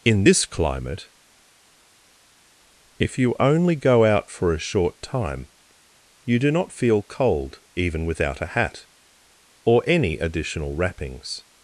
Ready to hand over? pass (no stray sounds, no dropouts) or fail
pass